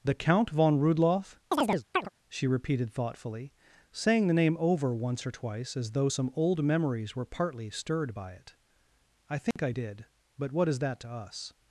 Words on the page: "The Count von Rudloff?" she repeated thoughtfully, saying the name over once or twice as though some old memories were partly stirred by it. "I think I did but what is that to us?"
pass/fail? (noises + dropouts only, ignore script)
fail